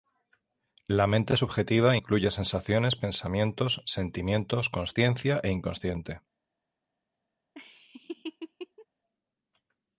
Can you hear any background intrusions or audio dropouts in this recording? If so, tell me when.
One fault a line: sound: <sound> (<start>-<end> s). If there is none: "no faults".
sound: laugh (7.5-8.9 s)